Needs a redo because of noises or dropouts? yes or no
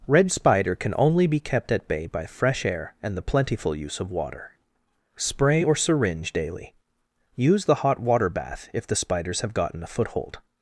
no